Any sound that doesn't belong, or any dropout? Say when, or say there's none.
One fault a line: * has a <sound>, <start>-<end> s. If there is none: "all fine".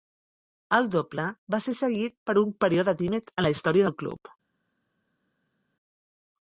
all fine